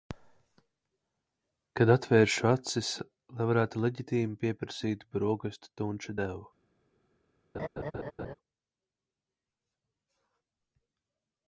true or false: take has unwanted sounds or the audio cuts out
true